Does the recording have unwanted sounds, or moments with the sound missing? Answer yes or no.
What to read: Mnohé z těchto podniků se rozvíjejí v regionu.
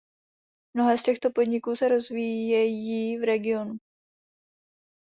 no